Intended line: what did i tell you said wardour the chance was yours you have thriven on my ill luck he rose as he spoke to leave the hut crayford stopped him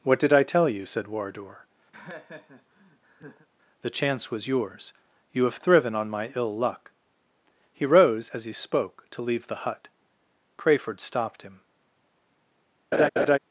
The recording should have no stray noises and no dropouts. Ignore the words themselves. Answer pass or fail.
fail